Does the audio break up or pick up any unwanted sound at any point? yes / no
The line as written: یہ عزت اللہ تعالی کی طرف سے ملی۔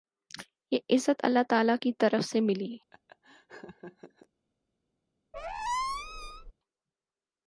yes